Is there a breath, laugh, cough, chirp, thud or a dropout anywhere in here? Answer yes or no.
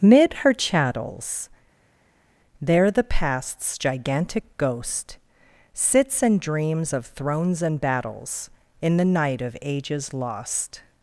no